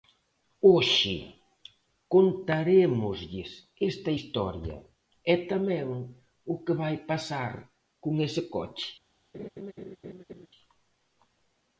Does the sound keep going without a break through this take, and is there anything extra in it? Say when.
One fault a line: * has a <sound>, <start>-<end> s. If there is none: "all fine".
* has a laugh, 9.3-10.5 s